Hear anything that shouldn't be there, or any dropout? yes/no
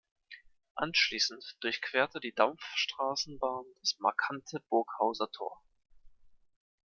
no